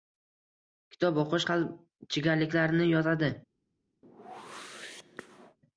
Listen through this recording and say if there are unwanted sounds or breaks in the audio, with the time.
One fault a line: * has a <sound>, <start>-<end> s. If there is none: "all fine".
* has a whoosh, 4.0-5.6 s